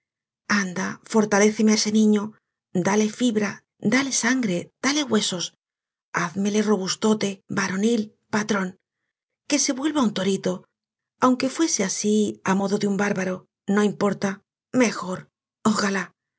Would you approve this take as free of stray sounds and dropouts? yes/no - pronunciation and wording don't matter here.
yes